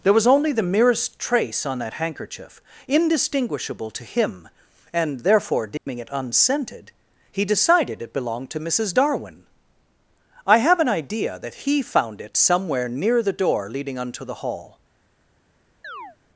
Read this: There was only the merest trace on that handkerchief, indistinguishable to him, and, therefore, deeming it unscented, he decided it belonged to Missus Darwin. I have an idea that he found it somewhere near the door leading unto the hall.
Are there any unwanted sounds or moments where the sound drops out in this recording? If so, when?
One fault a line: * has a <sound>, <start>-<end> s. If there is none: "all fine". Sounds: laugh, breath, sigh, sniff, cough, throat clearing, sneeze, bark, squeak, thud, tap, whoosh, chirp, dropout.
* has a dropout, 5.8-5.9 s
* has a chirp, 15.8-16.2 s